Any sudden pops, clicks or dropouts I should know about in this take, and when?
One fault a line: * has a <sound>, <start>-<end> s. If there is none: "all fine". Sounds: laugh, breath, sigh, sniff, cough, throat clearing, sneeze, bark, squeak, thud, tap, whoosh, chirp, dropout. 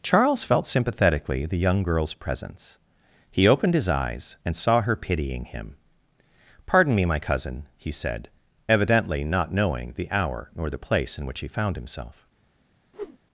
* has a whoosh, 12.9-13.2 s